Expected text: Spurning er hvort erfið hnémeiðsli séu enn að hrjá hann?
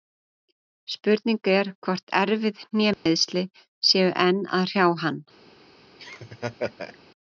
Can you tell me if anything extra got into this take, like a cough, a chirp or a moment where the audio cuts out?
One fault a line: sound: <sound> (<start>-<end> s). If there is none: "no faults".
sound: dropout (2.9-3.1 s)
sound: laugh (6.0-7.0 s)